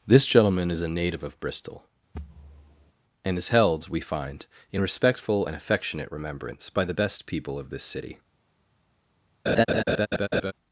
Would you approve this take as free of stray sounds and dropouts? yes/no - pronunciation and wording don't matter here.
no